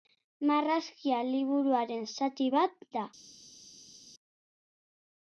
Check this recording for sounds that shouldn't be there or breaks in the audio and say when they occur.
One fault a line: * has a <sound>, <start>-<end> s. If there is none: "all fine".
all fine